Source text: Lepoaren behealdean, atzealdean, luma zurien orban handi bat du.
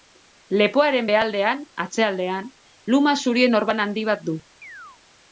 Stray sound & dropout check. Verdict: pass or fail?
fail